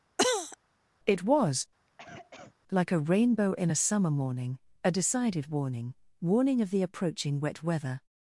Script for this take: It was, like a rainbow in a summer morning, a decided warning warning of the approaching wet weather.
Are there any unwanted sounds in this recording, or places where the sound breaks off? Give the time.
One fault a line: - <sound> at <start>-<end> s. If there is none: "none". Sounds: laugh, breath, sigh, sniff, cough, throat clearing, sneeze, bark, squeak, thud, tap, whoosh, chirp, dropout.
- cough at 0.2-0.6 s
- cough at 1.9-2.6 s